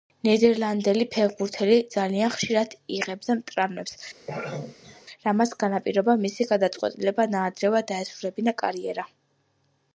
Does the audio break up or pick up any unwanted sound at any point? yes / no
yes